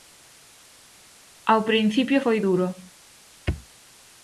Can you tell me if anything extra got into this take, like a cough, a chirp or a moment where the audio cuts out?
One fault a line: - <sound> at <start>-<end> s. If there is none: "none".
none